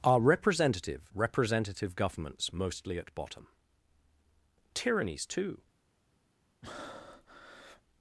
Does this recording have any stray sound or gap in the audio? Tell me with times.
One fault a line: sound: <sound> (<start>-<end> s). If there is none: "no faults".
sound: breath (6.6-7.8 s)